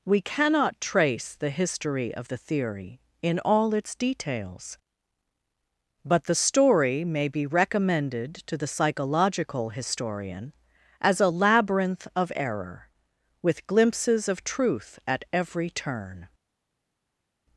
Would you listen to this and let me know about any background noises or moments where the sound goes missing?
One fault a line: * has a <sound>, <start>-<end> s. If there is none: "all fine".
all fine